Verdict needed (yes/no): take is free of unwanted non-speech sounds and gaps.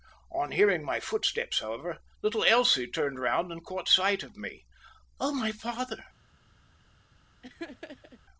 no